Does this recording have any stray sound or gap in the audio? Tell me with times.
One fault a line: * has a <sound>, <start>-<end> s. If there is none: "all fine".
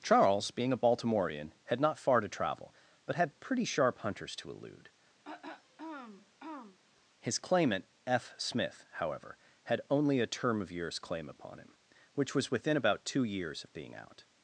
* has a throat clearing, 5.2-6.8 s